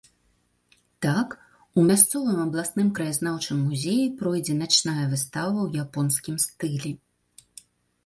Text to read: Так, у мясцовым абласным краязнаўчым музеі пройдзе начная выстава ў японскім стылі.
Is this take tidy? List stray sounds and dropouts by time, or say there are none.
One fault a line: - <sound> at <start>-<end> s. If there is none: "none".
none